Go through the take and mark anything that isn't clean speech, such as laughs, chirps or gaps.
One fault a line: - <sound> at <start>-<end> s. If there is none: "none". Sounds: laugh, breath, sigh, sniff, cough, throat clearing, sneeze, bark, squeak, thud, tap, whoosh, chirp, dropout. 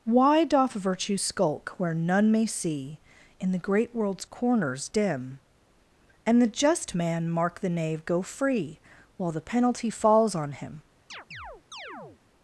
- chirp at 11.1-12.2 s